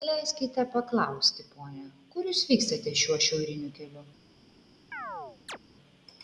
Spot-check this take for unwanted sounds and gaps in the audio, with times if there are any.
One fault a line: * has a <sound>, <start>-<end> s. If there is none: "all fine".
* has a chirp, 4.9-5.6 s